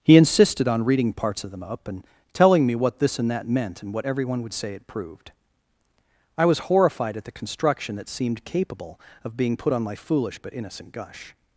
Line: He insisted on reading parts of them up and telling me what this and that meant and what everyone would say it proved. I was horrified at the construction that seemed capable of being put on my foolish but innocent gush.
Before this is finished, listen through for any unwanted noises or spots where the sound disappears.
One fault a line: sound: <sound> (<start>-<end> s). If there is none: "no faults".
no faults